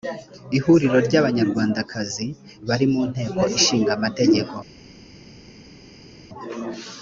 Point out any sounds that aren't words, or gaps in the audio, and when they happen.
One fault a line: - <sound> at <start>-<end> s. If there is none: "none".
none